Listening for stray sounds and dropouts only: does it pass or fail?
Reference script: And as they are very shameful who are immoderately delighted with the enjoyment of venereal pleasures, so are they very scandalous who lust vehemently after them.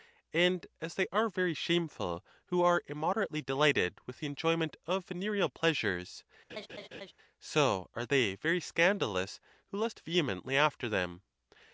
fail